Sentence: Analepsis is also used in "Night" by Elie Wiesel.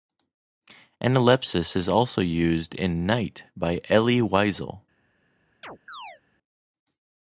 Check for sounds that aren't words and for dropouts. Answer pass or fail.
fail